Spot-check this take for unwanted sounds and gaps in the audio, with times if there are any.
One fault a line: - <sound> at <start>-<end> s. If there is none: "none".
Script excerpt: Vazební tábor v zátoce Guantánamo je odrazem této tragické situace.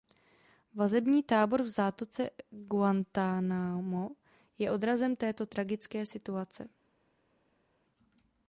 none